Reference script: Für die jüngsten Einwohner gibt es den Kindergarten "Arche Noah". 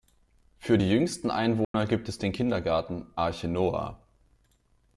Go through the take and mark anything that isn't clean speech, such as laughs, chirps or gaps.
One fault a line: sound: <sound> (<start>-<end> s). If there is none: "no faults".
sound: dropout (1.6-1.7 s)